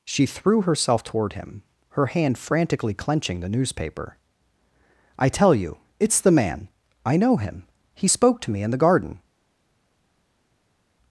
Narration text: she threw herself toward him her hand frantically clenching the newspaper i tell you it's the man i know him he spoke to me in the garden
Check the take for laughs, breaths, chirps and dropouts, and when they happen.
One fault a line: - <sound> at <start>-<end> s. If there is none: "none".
none